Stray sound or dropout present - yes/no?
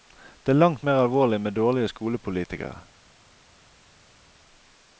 no